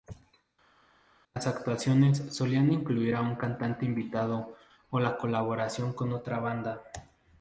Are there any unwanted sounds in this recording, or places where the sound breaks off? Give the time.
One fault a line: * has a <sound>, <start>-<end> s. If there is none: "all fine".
all fine